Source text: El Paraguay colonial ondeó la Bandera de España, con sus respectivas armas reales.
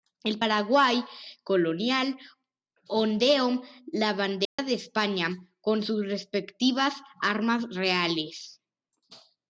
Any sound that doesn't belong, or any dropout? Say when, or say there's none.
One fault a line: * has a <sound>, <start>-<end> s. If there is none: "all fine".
* has a dropout, 4.4-4.6 s